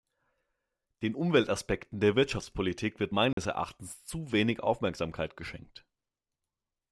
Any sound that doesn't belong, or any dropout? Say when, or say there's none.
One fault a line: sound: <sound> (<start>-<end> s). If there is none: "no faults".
sound: dropout (3.3-3.4 s)